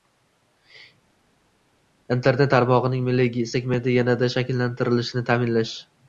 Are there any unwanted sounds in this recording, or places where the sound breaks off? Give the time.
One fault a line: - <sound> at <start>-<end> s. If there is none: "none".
none